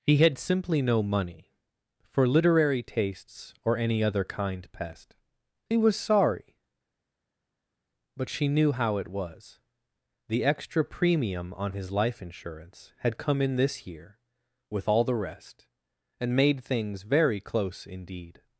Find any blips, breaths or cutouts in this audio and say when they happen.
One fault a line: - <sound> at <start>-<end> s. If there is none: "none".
none